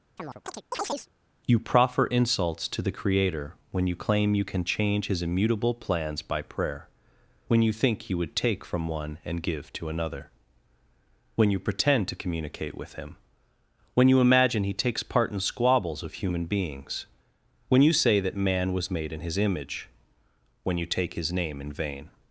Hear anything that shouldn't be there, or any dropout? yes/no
yes